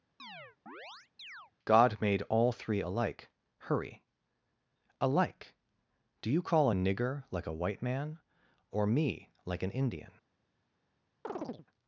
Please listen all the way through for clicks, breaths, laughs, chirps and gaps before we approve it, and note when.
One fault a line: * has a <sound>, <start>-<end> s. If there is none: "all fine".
* has a chirp, 0.2-1.5 s
* has a chirp, 11.2-11.7 s